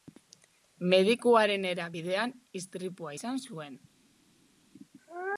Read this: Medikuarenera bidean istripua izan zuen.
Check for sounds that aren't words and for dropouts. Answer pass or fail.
pass